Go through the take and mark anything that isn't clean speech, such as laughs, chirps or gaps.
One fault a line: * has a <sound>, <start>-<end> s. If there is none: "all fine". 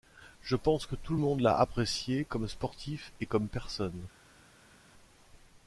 all fine